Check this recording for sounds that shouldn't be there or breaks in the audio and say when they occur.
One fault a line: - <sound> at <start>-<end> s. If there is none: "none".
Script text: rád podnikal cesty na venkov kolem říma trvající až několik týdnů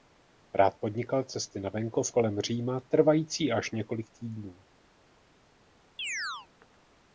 - chirp at 6.0-6.5 s